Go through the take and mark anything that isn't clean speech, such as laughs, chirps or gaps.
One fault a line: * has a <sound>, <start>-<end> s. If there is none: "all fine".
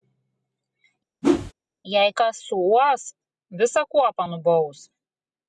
* has a whoosh, 1.2-1.5 s